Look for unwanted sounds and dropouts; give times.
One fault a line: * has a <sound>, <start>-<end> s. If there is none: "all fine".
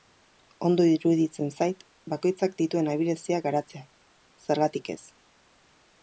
all fine